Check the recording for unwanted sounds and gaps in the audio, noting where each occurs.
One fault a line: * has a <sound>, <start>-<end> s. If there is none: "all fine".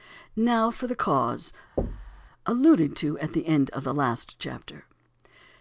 * has a thud, 1.8-2.3 s